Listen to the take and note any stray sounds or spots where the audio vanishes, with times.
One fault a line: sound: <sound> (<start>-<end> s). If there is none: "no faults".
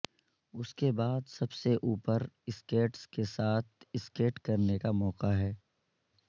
no faults